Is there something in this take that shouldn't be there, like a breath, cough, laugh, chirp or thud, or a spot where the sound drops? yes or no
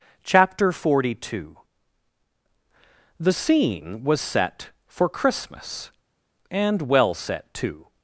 no